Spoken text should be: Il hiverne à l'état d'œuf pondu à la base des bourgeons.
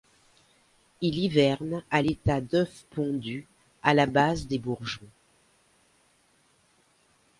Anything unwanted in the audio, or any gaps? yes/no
no